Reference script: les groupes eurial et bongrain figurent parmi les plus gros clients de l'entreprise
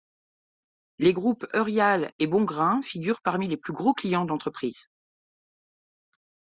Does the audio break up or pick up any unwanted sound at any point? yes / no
no